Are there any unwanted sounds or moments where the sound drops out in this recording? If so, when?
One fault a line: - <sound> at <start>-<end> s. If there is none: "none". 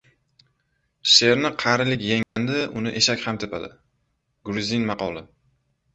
- dropout at 2.2-2.4 s